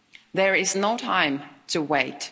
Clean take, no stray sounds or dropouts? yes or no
yes